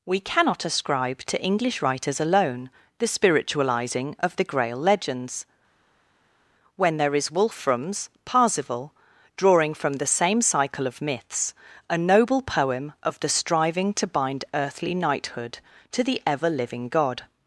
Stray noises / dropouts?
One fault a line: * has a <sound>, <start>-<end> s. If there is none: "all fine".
all fine